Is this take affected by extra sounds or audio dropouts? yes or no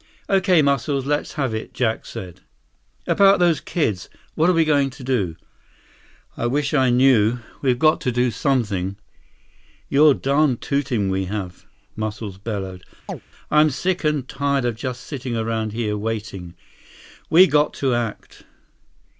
yes